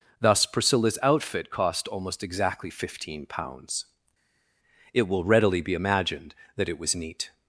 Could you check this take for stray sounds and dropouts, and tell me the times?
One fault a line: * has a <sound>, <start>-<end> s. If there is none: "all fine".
all fine